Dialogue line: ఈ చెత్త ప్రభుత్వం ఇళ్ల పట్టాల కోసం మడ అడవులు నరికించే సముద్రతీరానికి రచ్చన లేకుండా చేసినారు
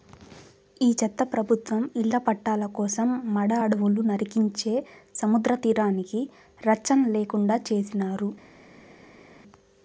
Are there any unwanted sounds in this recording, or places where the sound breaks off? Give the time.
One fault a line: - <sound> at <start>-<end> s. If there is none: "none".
none